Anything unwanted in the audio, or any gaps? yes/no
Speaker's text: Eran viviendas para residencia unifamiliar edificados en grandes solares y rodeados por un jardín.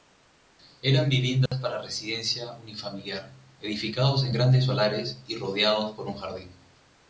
yes